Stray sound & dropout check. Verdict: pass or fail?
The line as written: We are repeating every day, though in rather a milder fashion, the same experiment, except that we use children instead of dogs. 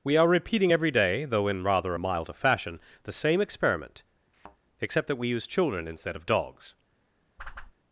fail